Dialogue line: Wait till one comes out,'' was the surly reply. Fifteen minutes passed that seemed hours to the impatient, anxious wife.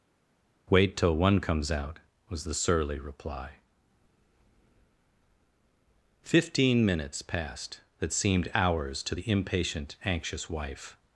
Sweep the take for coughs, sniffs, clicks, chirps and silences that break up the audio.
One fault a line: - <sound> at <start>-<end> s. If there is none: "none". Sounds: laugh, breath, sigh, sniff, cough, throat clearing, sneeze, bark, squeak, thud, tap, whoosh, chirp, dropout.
none